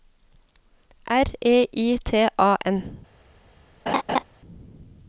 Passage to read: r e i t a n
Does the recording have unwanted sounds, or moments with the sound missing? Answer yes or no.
yes